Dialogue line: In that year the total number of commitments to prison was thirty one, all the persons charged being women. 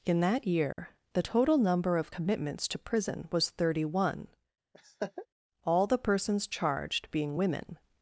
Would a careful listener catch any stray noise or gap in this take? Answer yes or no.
yes